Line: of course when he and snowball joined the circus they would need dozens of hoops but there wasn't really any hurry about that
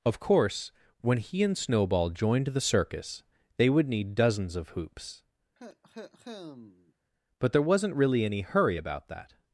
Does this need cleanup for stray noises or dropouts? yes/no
yes